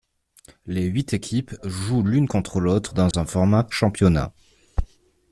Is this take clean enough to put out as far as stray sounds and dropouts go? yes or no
no